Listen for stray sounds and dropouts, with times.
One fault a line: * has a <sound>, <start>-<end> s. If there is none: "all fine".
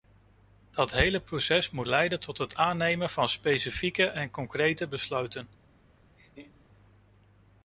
* has a laugh, 6.2-6.7 s